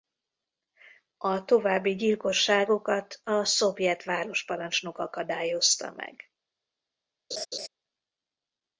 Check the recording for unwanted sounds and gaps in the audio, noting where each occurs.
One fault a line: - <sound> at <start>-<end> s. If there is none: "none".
- laugh at 7.3-7.7 s